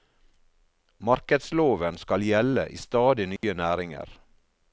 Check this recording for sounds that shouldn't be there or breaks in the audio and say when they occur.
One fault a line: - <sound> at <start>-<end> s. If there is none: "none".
- dropout at 3.4-3.4 s